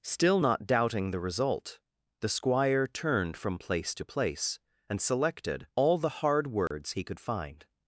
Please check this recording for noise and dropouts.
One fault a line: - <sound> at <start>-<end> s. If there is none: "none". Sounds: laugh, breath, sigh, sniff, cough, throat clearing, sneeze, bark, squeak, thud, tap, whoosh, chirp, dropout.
- dropout at 6.7-6.7 s